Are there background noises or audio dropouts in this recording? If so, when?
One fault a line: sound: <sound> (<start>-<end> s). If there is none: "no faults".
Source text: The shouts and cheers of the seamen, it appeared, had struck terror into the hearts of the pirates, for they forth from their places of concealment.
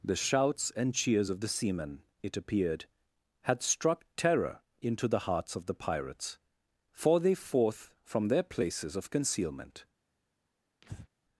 sound: breath (10.8-11.1 s)